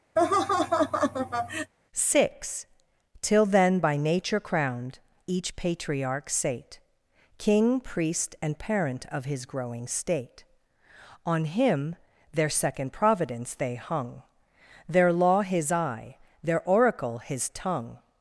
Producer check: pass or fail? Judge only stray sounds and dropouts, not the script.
fail